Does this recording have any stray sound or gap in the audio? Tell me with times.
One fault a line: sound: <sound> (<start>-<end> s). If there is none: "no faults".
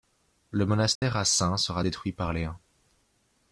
sound: dropout (1.0-1.0 s)